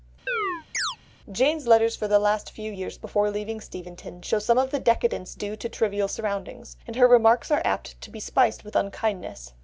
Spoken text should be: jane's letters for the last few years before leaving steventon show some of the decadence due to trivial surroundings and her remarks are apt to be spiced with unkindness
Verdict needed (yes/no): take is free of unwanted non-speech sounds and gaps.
no